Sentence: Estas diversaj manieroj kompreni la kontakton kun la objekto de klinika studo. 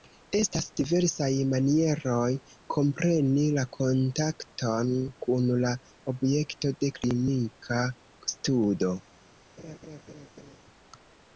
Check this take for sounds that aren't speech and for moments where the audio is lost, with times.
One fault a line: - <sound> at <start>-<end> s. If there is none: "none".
- laugh at 9.6-10.6 s